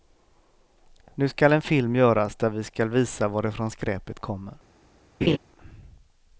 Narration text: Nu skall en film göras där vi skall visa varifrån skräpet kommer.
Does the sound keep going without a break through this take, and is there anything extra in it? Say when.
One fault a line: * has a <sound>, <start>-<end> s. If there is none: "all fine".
* has a laugh, 5.2-5.4 s